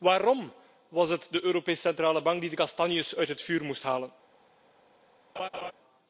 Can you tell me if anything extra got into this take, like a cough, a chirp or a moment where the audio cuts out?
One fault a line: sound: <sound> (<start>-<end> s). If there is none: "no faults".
sound: laugh (5.4-5.7 s)